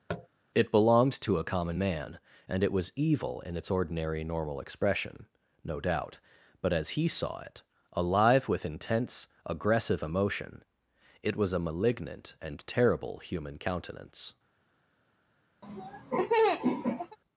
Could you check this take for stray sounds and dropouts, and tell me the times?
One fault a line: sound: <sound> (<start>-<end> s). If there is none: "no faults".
sound: tap (0.1-0.3 s)
sound: laugh (15.6-17.2 s)